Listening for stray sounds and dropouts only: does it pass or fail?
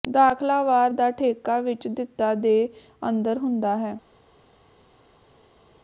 pass